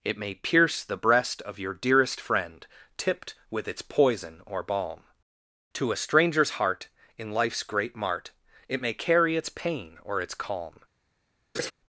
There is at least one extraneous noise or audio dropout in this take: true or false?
true